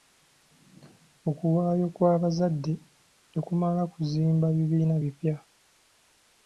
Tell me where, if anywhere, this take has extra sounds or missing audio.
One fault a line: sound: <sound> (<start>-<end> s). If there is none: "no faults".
no faults